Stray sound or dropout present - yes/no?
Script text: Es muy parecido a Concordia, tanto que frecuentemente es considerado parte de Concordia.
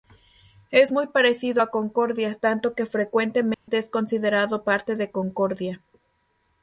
yes